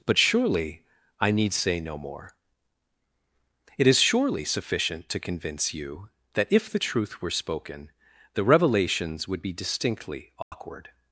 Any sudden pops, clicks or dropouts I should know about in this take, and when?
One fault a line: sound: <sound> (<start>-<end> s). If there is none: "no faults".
sound: dropout (10.4-10.5 s)